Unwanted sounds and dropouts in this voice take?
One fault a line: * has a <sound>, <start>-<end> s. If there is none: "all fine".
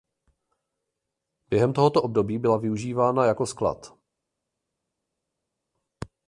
all fine